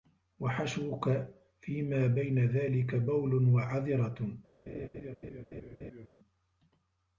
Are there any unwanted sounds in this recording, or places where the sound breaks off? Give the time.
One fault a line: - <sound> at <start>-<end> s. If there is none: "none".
- laugh at 4.7-6.1 s